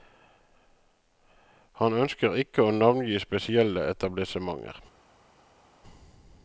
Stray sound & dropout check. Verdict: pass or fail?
pass